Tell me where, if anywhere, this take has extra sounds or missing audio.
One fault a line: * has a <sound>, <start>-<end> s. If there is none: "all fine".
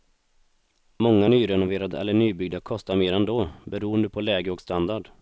all fine